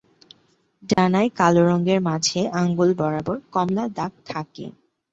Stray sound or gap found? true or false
true